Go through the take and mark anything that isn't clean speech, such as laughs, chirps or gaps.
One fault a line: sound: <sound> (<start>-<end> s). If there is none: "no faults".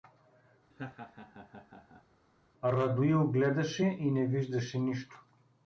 sound: laugh (0.7-2.0 s)